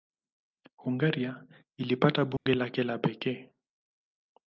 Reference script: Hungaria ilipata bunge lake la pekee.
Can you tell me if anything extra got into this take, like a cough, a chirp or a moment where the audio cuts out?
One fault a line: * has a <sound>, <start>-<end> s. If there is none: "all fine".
* has a dropout, 2.4-2.5 s